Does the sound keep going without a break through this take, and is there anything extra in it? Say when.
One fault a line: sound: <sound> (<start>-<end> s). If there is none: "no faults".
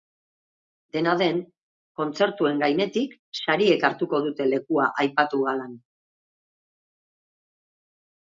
no faults